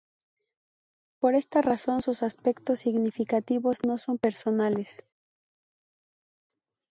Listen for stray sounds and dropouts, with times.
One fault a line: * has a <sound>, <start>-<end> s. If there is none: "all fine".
all fine